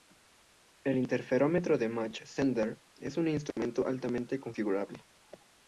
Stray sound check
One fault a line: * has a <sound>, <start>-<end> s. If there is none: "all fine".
* has a dropout, 3.5-3.6 s